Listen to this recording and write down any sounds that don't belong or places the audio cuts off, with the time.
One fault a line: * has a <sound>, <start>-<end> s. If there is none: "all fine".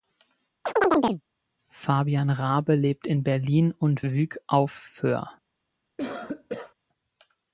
* has a chirp, 0.6-1.2 s
* has a cough, 6.0-6.7 s